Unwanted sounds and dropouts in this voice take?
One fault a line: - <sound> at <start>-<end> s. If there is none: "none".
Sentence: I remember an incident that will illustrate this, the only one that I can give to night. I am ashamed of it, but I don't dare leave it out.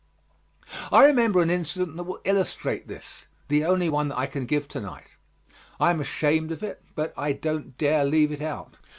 none